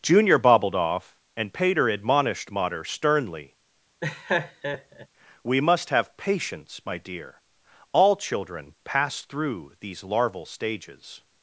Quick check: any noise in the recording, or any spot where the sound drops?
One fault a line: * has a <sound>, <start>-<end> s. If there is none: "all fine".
* has a laugh, 4.0-5.1 s